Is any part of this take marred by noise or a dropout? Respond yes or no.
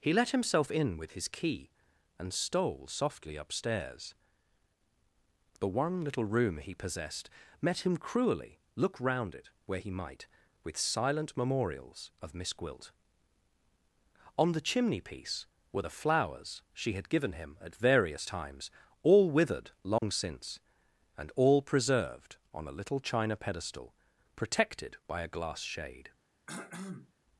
yes